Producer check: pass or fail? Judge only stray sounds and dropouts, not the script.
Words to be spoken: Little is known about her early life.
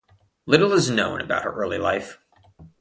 pass